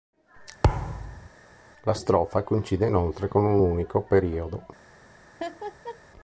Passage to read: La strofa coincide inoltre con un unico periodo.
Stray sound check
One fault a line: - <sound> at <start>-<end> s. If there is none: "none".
- thud at 0.6-1.3 s
- laugh at 5.4-6.0 s